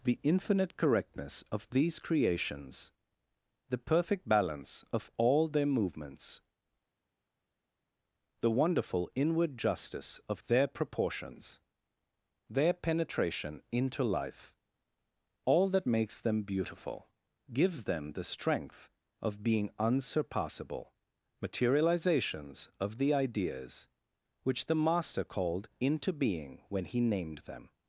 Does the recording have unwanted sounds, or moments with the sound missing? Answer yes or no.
no